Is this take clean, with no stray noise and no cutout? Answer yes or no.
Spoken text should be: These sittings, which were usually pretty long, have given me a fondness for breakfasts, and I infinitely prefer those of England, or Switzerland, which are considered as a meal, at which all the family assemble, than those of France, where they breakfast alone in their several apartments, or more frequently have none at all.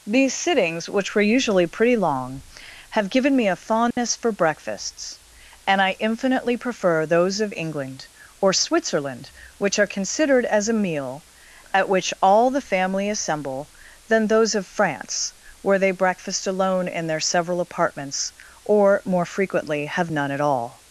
no